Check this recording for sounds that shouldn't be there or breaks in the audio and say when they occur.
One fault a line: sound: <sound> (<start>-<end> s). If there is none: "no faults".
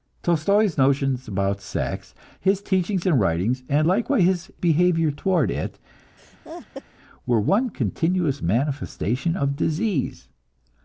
sound: laugh (6.2-6.8 s)